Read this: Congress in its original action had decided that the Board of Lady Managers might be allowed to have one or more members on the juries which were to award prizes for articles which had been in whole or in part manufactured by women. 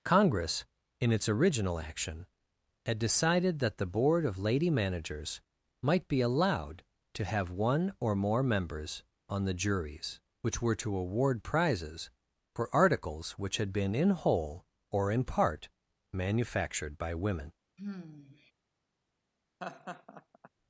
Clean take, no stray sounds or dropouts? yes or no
no